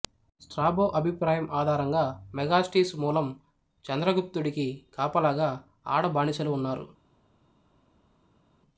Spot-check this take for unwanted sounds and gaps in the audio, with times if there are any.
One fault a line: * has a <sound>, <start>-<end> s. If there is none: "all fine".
all fine